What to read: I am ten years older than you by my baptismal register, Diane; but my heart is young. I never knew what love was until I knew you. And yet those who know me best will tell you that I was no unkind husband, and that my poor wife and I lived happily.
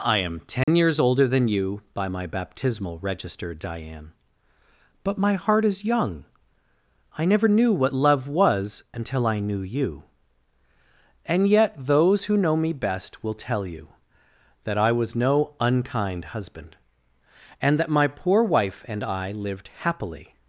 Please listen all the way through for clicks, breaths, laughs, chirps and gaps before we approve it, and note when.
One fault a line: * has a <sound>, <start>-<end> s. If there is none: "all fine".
* has a dropout, 0.6-0.7 s